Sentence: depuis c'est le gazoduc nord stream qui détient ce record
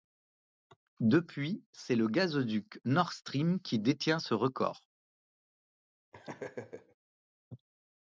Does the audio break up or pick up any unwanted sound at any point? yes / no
yes